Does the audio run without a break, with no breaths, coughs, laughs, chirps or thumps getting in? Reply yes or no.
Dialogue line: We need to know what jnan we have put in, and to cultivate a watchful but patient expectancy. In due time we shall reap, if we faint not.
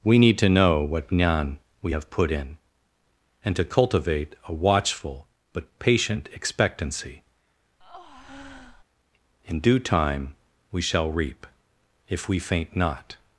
no